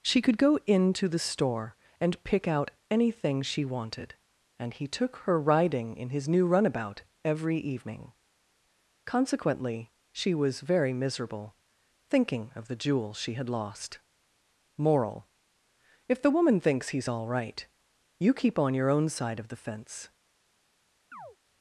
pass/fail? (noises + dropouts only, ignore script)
fail